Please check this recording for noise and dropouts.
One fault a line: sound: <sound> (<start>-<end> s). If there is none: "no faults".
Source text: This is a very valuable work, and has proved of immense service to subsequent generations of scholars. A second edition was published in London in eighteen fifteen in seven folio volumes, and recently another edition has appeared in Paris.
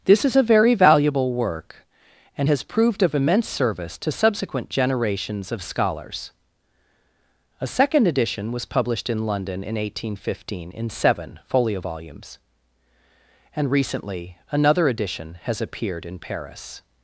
no faults